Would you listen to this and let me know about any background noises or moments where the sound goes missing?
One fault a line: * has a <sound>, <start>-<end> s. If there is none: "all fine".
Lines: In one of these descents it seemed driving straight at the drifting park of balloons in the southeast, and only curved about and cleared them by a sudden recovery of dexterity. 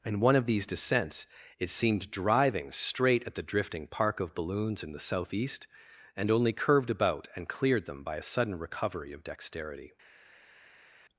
all fine